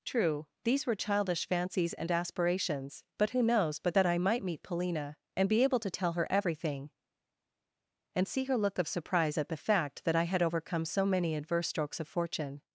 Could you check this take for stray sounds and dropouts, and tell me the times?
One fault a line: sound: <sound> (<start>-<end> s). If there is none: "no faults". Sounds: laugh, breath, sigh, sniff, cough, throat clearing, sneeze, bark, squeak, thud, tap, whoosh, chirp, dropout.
no faults